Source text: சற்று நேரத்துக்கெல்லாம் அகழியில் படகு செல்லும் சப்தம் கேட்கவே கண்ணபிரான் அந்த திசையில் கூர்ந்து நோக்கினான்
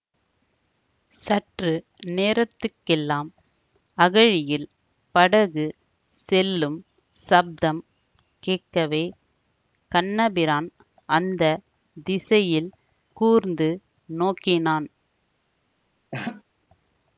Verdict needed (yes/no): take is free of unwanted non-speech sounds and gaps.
no